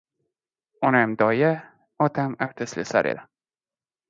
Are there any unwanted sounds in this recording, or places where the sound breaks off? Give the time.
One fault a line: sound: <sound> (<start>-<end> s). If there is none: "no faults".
no faults